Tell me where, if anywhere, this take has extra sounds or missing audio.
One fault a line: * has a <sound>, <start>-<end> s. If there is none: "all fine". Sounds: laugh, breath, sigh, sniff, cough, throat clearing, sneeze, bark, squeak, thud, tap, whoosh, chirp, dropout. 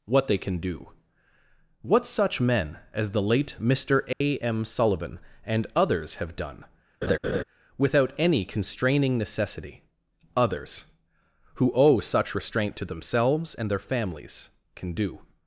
* has a dropout, 4.1-4.2 s
* has a laugh, 7.0-7.4 s